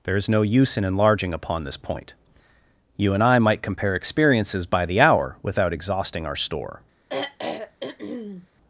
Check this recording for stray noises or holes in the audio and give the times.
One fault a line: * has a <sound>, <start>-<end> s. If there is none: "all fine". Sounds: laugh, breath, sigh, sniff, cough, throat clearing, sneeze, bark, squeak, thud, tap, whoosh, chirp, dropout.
* has a throat clearing, 7.1-8.5 s